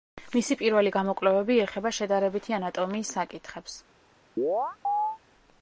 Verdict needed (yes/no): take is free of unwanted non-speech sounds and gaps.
no